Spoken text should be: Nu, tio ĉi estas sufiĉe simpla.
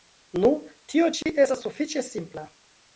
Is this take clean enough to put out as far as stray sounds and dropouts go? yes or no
no